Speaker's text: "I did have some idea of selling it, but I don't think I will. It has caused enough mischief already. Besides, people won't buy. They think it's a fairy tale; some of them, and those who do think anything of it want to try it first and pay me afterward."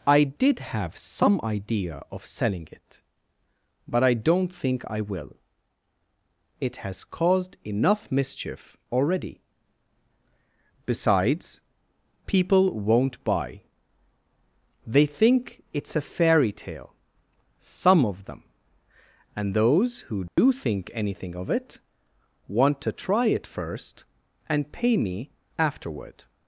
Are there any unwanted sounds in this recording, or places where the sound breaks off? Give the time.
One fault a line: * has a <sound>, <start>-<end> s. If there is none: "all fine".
* has a dropout, 20.3-20.4 s